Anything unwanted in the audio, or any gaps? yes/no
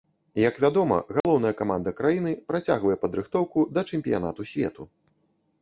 yes